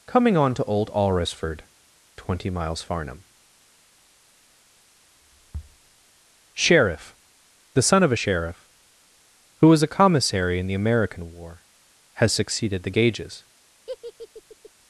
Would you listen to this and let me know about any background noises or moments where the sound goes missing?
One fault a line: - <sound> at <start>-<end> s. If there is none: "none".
- laugh at 13.9-14.7 s